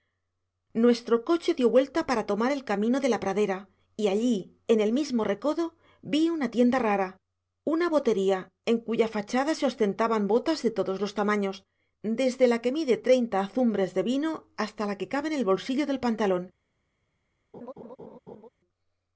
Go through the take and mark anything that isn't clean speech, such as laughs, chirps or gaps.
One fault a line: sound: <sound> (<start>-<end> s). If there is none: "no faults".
sound: laugh (17.5-18.5 s)